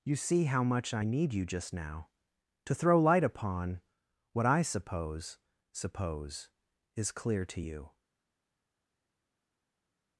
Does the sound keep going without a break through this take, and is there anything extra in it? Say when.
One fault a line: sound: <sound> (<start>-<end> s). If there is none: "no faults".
no faults